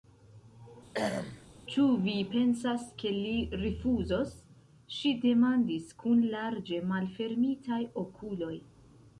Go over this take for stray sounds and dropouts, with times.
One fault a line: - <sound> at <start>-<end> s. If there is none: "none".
- throat clearing at 0.9-1.5 s